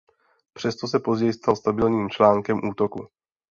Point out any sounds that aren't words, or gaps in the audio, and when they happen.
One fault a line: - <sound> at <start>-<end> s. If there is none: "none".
none